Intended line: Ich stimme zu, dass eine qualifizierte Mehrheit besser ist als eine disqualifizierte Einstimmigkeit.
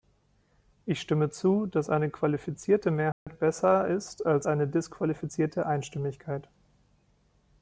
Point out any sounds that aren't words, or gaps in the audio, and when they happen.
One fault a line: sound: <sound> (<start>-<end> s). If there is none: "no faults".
sound: dropout (3.1-3.3 s)